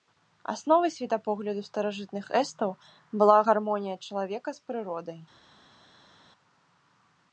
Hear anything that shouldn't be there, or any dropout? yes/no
no